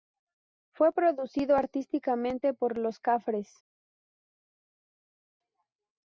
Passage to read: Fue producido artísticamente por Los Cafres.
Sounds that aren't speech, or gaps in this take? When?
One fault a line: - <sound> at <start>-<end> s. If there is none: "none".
none